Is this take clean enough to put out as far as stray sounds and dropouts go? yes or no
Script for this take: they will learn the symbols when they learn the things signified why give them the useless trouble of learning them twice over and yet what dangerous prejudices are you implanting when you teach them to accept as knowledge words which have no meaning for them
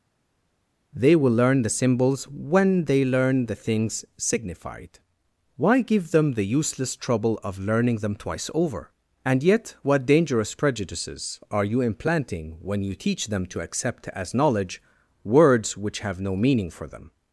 yes